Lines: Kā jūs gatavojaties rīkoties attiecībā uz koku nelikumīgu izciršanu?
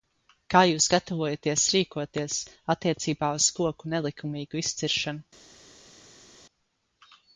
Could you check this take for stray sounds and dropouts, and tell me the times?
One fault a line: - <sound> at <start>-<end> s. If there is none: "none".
none